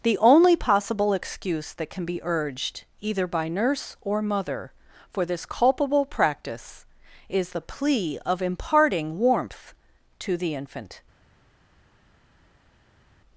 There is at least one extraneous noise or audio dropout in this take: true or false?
false